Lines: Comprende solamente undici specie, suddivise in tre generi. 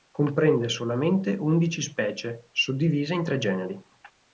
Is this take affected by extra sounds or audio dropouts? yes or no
no